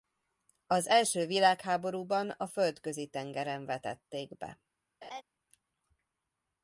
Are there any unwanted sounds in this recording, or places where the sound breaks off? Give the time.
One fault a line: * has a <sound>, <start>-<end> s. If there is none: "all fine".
* has a laugh, 5.0-5.2 s